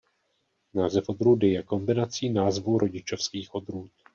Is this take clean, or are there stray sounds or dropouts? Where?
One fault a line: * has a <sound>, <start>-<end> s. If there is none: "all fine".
all fine